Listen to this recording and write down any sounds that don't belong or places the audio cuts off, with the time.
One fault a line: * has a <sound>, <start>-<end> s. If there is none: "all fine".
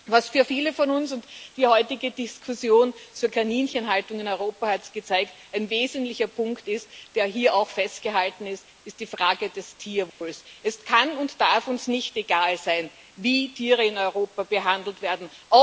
* has a dropout, 10.1-10.2 s